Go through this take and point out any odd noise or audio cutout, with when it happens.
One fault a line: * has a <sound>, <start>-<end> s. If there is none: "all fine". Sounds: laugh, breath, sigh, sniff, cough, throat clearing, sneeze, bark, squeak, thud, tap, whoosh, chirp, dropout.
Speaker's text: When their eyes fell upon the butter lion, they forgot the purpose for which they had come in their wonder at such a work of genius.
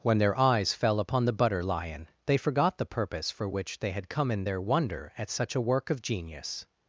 all fine